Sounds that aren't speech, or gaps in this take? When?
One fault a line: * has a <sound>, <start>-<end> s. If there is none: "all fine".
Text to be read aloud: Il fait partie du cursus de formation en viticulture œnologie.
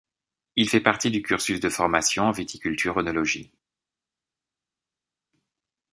all fine